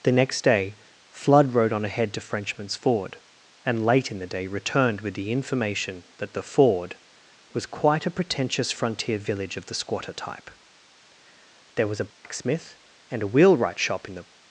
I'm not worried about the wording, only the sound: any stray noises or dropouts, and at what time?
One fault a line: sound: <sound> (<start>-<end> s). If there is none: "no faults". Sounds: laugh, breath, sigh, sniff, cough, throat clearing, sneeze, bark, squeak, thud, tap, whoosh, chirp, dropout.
sound: dropout (12.1-12.2 s)